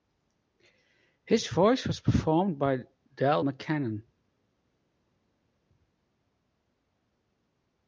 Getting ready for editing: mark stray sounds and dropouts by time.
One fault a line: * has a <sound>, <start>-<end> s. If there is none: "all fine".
all fine